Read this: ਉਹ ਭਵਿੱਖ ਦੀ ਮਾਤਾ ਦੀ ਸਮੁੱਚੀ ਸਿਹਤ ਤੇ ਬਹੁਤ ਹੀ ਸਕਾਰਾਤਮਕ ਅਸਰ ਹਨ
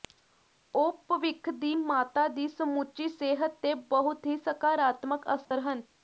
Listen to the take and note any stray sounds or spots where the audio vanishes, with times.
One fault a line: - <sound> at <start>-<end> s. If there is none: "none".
- dropout at 5.4-5.5 s